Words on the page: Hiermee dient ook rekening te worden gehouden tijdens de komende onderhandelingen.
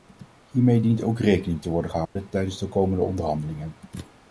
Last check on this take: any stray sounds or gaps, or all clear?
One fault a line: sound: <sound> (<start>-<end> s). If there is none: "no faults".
sound: dropout (2.1-2.2 s)